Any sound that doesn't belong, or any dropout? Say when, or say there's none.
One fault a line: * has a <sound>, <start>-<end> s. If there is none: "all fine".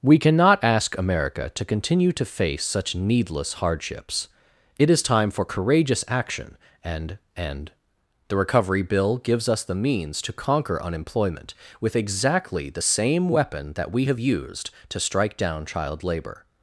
all fine